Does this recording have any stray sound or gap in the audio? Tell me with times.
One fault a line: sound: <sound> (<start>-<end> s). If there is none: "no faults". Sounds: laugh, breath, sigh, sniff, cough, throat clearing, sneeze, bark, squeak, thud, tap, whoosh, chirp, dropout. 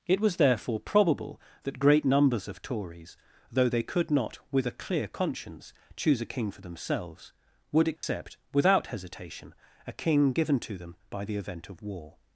sound: dropout (8.0-8.0 s)